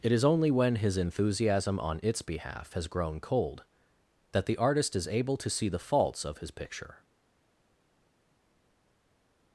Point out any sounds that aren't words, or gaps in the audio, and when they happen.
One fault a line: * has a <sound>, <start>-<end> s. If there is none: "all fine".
all fine